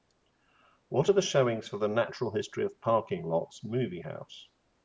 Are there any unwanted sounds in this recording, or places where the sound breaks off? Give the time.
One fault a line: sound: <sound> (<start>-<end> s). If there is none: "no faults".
no faults